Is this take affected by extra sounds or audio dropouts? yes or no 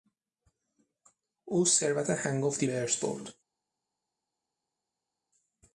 no